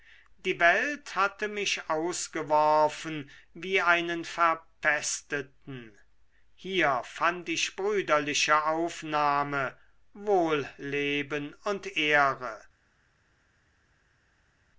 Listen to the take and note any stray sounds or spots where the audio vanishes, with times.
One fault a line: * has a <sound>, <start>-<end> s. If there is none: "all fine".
all fine